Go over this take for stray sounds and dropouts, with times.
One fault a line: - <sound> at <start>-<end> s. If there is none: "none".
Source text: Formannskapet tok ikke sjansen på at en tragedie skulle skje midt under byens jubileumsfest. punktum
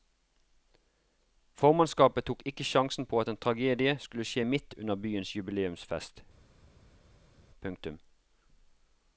none